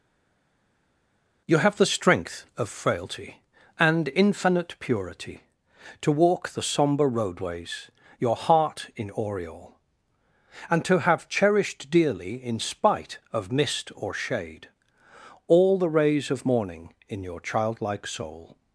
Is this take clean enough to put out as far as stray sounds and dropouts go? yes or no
yes